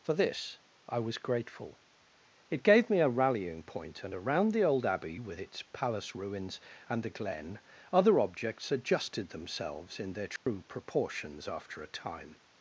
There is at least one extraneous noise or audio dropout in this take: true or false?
true